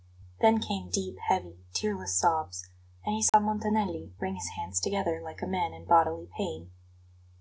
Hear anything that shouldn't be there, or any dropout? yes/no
yes